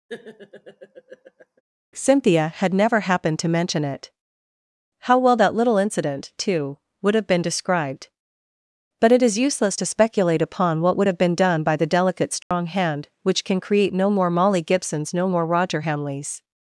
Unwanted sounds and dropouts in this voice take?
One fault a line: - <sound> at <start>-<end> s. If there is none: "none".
- laugh at 0.1-1.6 s
- dropout at 12.4-12.5 s